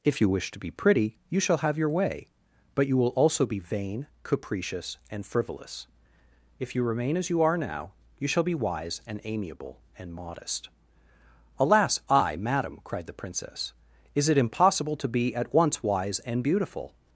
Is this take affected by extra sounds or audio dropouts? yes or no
no